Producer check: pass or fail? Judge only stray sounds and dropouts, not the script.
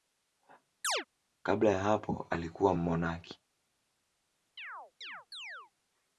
fail